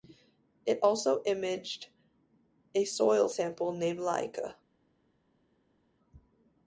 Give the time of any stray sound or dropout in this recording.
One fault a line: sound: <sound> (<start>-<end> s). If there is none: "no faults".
no faults